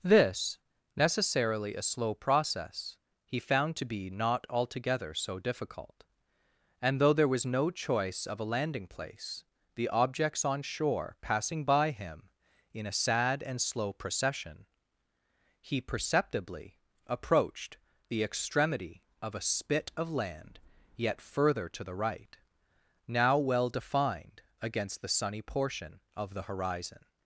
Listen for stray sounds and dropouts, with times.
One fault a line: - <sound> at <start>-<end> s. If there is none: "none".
none